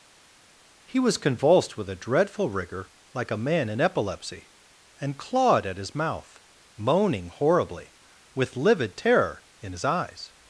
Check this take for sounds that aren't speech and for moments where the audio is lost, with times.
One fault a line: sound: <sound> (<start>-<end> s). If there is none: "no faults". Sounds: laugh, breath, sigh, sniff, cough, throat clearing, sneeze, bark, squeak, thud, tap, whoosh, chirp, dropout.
no faults